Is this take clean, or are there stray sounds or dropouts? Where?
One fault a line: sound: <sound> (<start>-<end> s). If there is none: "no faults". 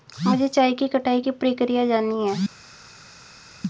no faults